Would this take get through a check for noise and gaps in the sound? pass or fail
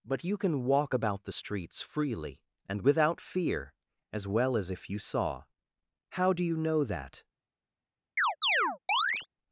fail